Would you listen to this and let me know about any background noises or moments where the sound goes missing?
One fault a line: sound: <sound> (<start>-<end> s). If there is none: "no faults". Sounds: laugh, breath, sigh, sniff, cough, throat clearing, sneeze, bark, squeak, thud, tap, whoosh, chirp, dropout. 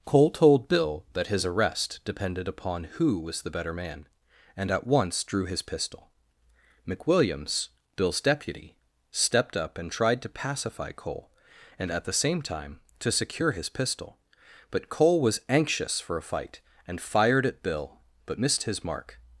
no faults